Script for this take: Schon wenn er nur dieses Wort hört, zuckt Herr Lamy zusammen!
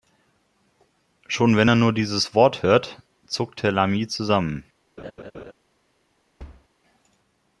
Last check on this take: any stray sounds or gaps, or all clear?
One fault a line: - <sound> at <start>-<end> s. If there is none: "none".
- laugh at 5.0-5.5 s
- thud at 6.4-6.7 s